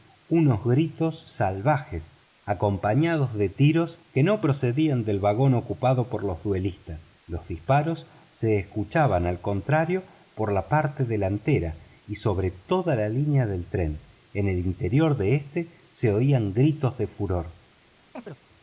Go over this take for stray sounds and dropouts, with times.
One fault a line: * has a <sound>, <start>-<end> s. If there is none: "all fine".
* has a chirp, 18.1-18.4 s